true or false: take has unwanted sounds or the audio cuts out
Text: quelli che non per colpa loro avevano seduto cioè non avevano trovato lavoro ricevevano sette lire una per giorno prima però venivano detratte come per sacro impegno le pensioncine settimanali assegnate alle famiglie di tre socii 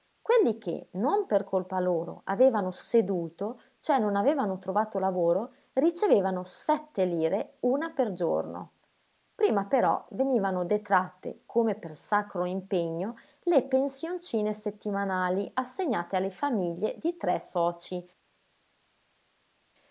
false